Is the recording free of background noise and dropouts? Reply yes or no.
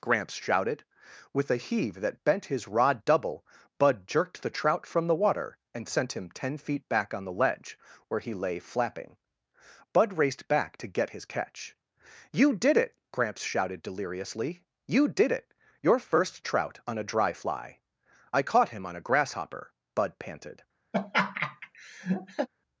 no